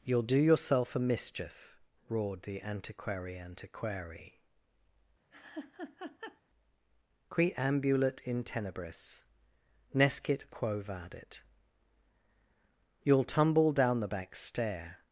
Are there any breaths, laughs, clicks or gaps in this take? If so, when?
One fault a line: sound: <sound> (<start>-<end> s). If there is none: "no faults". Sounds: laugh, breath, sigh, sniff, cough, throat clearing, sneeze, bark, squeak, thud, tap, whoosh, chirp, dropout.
sound: laugh (5.3-6.4 s)